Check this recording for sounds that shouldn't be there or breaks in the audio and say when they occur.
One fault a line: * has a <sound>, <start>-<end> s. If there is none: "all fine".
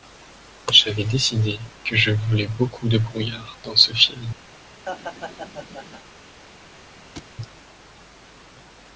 * has a laugh, 4.9-6.0 s
* has a thud, 7.1-7.3 s